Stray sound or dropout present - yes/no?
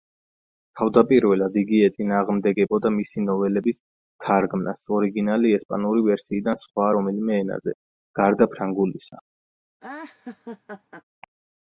yes